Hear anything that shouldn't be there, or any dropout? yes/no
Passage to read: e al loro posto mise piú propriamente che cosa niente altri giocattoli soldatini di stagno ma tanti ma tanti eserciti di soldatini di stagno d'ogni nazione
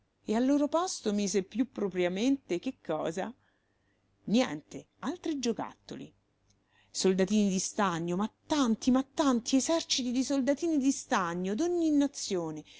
no